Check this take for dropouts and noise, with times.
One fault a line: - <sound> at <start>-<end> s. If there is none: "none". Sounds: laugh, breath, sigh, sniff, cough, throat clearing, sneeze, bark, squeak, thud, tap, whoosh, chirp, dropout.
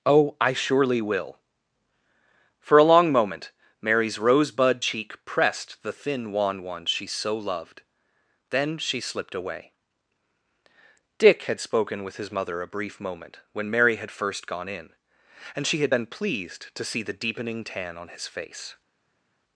none